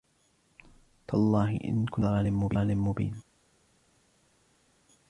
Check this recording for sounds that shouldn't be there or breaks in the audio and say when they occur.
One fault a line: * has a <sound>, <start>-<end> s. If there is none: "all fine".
all fine